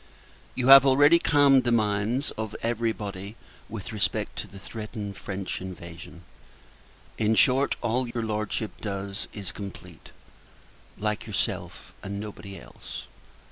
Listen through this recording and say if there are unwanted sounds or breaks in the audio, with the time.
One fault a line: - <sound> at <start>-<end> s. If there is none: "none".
- dropout at 8.1-8.2 s